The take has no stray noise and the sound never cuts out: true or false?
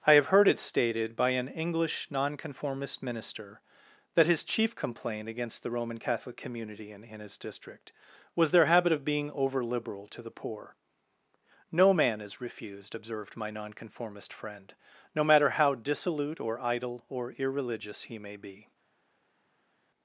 true